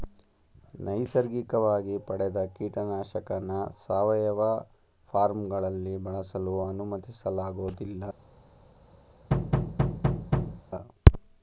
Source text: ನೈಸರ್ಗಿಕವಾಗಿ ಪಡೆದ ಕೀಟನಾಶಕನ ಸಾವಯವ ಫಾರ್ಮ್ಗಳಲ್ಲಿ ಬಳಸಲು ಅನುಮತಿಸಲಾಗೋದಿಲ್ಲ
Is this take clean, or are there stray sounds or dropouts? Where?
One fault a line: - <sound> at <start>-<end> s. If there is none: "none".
- thud at 9.3-10.6 s